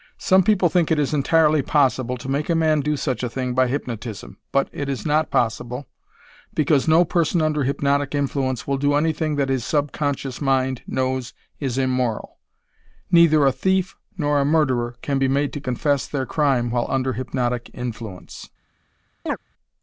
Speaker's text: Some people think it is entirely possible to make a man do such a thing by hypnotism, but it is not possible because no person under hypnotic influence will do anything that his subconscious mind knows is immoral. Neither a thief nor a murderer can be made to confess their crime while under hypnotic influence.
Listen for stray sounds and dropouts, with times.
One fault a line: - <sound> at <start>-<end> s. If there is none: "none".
- chirp at 19.3-19.4 s